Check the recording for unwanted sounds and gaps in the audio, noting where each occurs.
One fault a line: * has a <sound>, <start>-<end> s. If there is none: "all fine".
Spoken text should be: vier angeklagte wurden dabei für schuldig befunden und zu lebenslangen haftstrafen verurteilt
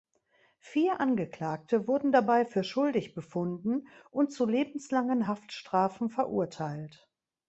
all fine